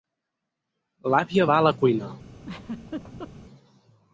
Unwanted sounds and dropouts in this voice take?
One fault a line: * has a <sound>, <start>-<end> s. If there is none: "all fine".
* has a laugh, 2.4-3.3 s